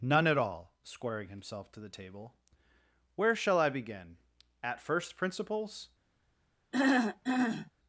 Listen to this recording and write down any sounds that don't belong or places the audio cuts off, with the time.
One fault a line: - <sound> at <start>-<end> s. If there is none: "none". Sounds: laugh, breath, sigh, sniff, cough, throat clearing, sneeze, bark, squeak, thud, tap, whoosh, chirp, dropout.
- throat clearing at 6.7-7.7 s